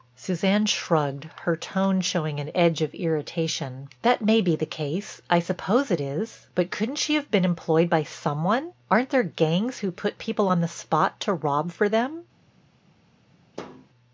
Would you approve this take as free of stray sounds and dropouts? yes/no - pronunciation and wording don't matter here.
no